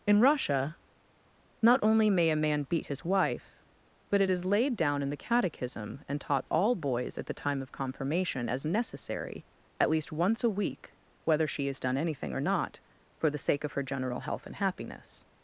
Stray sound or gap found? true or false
false